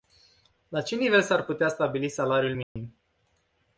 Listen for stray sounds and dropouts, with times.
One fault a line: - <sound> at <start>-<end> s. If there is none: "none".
- dropout at 2.6-2.8 s